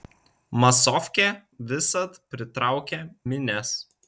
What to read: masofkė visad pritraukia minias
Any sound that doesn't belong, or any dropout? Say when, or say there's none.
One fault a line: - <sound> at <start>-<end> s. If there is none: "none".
none